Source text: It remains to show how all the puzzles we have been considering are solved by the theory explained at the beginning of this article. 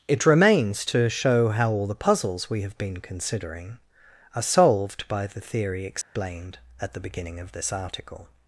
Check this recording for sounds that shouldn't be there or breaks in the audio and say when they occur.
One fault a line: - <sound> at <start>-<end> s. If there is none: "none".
- dropout at 6.0-6.2 s